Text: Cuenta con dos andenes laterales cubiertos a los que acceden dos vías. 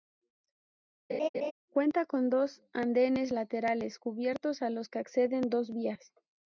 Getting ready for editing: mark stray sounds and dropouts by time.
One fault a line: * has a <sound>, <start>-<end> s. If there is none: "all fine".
* has a laugh, 1.1-1.5 s